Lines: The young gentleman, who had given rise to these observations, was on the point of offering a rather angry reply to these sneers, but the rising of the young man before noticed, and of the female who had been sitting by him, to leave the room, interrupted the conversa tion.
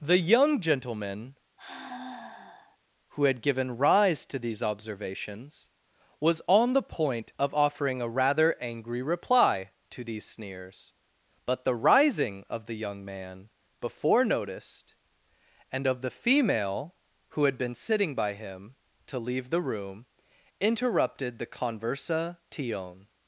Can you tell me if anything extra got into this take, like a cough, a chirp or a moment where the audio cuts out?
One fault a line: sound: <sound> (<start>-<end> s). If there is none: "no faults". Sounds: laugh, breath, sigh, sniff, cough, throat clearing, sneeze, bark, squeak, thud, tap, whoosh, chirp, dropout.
sound: sigh (1.6-2.8 s)